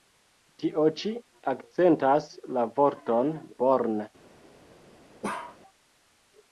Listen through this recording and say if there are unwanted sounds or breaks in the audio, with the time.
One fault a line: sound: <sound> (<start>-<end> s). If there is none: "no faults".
sound: bark (5.2-5.6 s)